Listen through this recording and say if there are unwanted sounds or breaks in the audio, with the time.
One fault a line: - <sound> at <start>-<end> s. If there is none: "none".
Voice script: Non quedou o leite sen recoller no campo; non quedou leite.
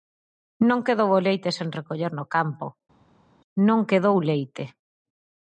none